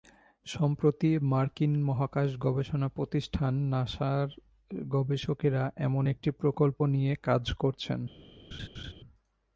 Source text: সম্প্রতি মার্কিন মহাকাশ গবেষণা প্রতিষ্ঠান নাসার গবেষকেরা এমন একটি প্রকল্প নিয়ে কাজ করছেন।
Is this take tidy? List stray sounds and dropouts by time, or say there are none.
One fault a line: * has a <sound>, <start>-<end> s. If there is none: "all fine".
* has a laugh, 8.5-8.9 s